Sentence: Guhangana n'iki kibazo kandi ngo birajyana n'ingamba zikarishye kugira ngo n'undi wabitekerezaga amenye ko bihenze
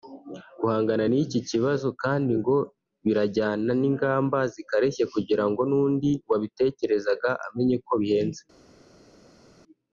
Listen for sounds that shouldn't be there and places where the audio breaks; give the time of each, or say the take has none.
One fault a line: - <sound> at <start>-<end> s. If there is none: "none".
none